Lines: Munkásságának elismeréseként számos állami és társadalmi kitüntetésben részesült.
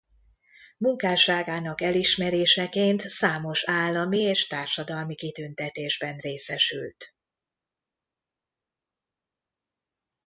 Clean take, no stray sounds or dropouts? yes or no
yes